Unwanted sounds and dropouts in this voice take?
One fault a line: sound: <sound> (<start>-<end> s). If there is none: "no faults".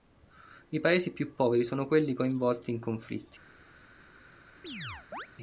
sound: chirp (4.6-5.3 s)